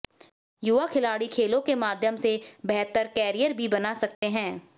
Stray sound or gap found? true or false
true